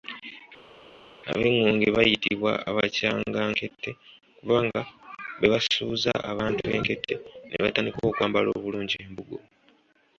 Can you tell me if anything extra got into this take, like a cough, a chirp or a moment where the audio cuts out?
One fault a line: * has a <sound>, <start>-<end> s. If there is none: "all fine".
all fine